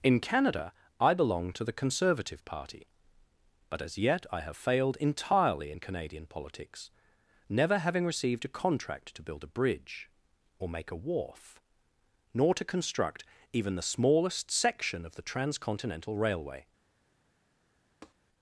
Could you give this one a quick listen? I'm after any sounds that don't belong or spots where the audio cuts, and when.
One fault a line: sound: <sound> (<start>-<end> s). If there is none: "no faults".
sound: tap (18.0-18.1 s)